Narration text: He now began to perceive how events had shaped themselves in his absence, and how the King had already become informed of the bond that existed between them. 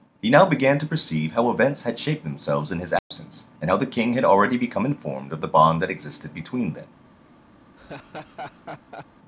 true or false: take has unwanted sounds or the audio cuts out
true